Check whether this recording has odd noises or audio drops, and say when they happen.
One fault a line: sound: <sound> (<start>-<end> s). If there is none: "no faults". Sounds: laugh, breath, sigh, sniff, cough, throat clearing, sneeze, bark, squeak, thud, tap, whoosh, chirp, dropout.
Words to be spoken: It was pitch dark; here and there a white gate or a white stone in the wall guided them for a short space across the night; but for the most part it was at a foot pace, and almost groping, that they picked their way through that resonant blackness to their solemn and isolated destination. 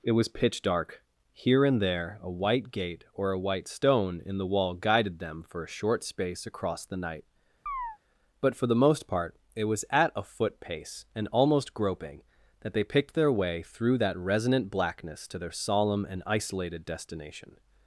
sound: chirp (7.7-8.0 s)